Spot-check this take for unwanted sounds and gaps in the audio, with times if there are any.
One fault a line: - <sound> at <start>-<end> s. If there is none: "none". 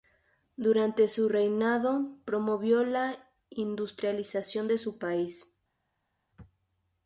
none